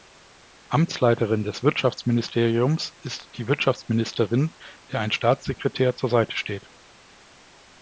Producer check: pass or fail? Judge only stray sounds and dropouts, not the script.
pass